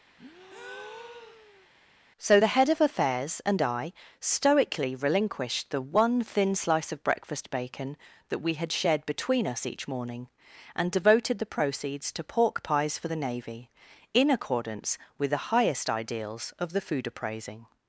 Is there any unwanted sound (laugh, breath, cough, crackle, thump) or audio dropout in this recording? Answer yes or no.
yes